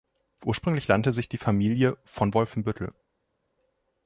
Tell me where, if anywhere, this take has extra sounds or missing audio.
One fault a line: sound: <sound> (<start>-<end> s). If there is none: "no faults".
no faults